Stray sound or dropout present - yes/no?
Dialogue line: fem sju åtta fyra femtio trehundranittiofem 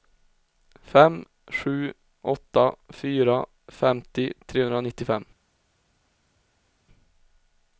no